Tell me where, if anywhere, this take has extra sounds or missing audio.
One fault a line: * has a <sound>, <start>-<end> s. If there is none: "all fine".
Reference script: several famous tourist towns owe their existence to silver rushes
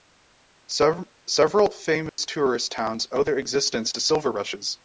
* has a dropout, 2.1-2.2 s